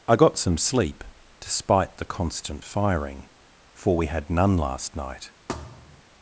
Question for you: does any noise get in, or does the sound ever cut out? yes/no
yes